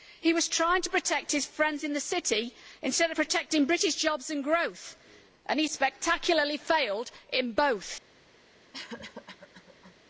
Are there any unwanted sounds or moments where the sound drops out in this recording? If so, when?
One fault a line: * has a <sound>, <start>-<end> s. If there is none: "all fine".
* has a cough, 8.7-10.0 s